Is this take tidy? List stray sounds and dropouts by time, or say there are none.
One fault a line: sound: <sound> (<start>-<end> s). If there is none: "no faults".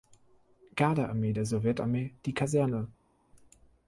no faults